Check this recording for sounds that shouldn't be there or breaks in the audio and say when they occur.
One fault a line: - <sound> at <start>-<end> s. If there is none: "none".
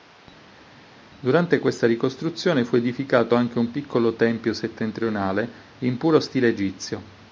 none